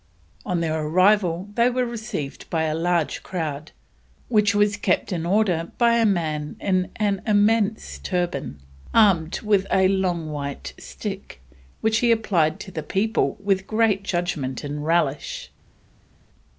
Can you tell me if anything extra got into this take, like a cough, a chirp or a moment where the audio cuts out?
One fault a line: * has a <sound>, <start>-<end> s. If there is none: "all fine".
all fine